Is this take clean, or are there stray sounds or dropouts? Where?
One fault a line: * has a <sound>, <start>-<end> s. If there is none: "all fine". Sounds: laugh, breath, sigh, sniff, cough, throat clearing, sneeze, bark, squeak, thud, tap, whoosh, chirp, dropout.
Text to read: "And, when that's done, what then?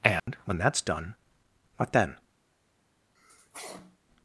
* has a dropout, 0.2-0.3 s
* has a sneeze, 3.1-4.0 s